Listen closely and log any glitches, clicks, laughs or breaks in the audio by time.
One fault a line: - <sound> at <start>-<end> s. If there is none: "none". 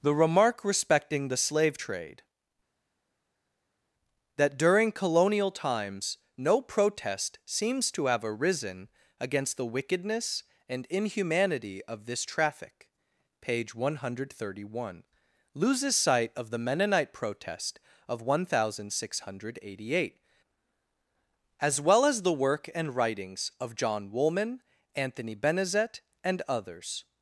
none